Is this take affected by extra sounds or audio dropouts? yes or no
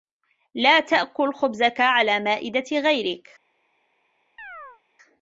yes